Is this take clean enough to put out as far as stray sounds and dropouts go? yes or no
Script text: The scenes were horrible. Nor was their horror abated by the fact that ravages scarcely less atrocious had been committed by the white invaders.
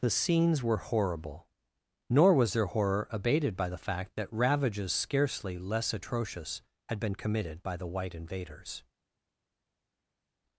yes